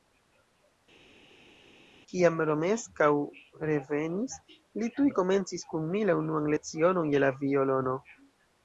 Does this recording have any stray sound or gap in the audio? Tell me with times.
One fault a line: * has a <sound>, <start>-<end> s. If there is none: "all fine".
all fine